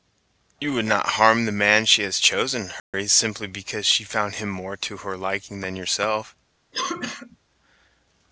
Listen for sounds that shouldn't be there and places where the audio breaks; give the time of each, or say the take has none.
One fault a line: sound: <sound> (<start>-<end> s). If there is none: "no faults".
sound: dropout (2.8-2.9 s)
sound: cough (6.7-7.4 s)